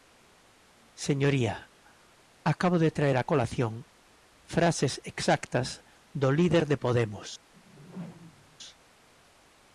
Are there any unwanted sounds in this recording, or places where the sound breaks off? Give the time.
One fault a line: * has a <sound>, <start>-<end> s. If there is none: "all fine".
* has a whoosh, 7.5-8.6 s